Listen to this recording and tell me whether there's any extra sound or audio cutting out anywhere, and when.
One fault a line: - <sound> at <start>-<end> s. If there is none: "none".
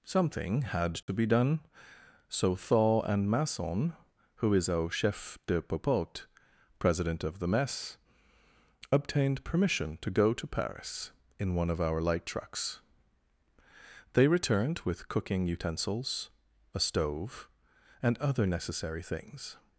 - dropout at 1.0-1.1 s